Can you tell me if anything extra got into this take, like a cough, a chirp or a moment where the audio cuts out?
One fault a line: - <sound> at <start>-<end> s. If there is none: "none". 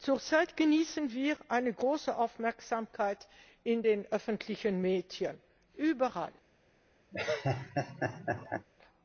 - laugh at 7.1-8.7 s